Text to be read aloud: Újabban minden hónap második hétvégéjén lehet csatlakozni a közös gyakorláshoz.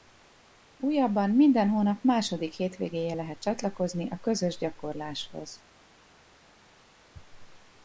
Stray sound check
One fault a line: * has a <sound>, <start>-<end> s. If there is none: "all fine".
all fine